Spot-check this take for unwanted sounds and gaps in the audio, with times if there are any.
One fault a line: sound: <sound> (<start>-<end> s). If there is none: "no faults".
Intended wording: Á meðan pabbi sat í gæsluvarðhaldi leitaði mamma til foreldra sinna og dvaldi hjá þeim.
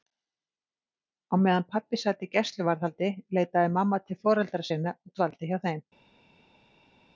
no faults